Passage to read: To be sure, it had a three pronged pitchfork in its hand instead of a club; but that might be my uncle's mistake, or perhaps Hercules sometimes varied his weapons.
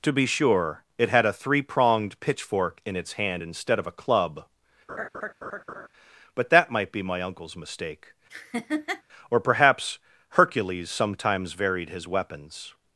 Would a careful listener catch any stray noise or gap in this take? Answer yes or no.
yes